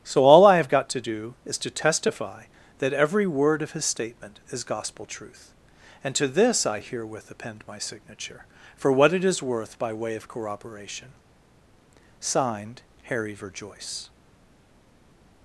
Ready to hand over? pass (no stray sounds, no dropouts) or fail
pass